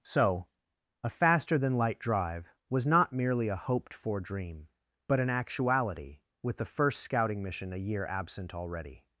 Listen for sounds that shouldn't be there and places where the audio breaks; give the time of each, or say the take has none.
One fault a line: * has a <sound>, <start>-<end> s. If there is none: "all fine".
all fine